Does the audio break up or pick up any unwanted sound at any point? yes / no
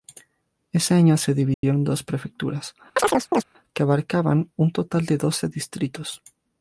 yes